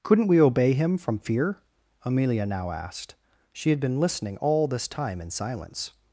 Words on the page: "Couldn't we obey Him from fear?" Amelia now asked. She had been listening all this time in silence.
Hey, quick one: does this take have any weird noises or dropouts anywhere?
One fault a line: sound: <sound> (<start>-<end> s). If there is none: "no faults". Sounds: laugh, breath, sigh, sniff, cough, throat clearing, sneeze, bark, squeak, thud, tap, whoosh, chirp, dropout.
no faults